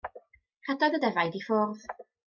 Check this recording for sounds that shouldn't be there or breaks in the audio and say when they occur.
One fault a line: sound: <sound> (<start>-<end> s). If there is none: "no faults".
no faults